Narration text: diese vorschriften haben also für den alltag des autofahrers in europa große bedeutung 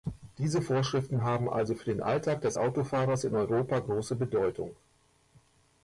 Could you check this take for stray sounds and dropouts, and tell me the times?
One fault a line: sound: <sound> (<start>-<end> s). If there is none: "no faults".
no faults